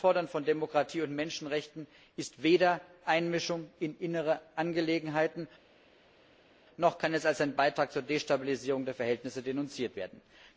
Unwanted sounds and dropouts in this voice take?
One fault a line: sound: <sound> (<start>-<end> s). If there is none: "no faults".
no faults